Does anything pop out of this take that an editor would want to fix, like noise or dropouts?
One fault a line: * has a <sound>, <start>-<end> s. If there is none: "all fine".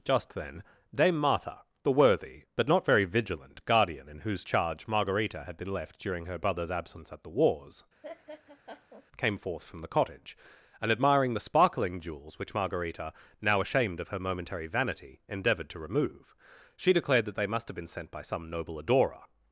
* has a laugh, 8.0-9.1 s